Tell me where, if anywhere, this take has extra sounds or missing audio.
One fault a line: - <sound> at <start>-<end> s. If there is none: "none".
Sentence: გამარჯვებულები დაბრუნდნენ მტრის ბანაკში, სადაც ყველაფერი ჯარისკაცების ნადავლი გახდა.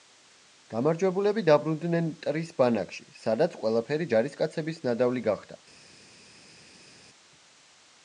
none